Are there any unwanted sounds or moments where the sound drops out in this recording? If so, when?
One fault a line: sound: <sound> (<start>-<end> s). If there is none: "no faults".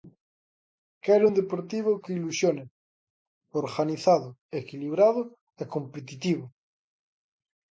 no faults